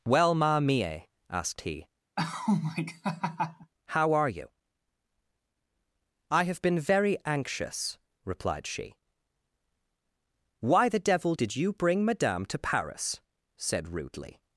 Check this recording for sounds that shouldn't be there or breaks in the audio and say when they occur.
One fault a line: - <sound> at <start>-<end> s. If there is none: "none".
- laugh at 2.2-3.7 s